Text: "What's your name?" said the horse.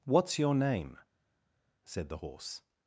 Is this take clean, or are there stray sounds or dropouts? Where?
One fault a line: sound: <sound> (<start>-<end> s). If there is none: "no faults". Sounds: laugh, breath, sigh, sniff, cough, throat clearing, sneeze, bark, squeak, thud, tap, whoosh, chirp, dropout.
no faults